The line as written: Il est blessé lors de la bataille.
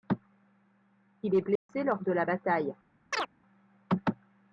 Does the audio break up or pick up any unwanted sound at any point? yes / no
yes